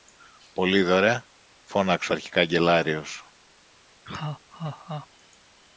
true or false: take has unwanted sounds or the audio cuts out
true